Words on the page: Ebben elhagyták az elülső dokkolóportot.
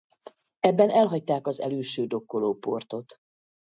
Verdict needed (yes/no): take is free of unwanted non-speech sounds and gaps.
yes